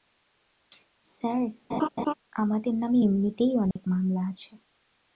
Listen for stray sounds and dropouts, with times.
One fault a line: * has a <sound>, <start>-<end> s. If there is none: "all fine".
* has a laugh, 1.7-2.1 s
* has a dropout, 3.7-3.8 s